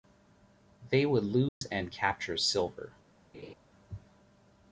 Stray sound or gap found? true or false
true